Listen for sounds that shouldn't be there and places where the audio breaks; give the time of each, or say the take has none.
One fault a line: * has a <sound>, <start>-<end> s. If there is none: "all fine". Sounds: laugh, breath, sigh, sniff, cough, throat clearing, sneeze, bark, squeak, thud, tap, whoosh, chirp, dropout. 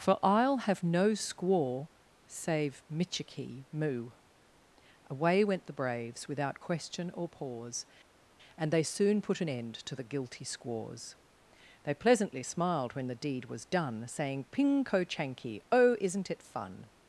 all fine